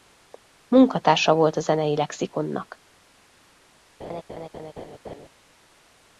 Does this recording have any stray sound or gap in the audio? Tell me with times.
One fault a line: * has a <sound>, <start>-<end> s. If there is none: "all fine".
* has a laugh, 4.0-5.3 s